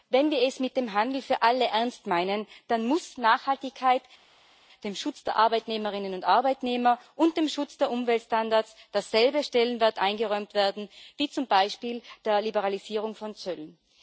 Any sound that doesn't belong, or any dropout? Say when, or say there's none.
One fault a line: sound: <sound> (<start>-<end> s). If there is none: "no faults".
no faults